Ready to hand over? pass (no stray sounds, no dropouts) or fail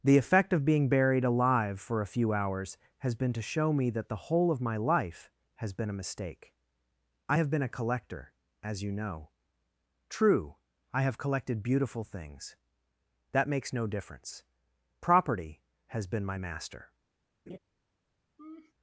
fail